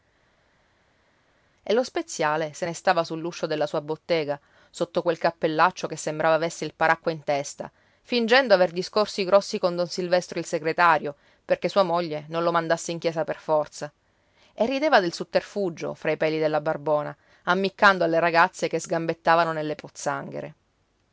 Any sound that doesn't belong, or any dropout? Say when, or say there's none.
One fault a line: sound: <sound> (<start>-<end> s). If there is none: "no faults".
no faults